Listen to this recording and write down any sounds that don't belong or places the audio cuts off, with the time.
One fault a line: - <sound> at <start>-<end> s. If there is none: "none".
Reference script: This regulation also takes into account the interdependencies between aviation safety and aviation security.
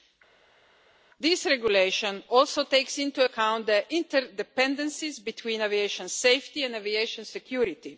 none